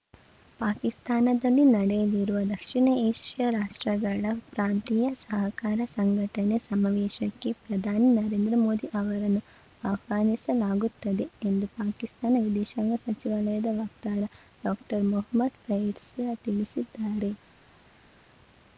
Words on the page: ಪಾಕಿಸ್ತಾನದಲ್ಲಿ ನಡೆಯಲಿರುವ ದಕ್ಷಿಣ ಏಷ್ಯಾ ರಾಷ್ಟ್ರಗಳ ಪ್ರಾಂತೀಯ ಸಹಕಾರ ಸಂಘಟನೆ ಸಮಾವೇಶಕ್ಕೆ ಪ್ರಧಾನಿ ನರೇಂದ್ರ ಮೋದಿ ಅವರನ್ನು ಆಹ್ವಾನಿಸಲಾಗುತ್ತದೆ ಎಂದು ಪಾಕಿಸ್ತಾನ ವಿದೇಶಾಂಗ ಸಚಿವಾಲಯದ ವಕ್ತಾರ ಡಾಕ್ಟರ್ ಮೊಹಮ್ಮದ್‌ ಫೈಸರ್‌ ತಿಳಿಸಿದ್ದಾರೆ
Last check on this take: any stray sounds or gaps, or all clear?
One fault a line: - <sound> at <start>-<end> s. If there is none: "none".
none